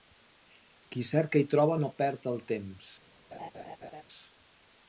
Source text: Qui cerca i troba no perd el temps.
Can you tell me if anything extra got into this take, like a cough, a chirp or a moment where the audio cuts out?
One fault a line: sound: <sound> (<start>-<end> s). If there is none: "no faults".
sound: laugh (3.3-4.0 s)